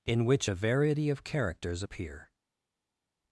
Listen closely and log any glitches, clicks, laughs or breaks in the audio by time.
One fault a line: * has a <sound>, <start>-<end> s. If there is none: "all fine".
all fine